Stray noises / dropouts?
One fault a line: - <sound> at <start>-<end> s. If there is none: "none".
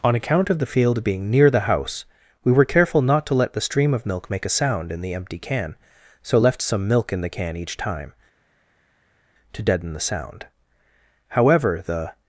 none